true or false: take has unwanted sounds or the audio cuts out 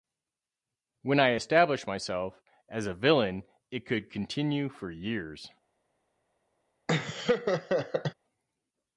true